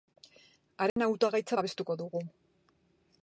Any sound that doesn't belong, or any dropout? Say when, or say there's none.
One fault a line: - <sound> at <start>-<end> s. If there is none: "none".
- dropout at 0.9-1.0 s